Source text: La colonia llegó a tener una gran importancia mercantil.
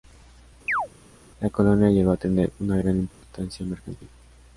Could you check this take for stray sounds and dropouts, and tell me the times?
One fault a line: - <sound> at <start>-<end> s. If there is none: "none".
- chirp at 0.7-0.9 s
- dropout at 3.1-3.2 s